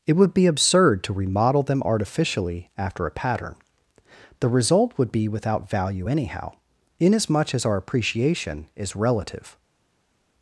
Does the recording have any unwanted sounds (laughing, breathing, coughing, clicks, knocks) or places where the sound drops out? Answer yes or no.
no